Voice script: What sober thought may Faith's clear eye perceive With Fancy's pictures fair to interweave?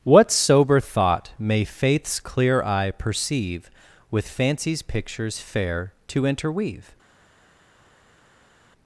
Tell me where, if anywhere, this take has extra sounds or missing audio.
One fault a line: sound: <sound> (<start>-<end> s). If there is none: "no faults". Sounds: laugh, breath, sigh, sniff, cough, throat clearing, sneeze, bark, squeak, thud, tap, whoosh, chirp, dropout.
no faults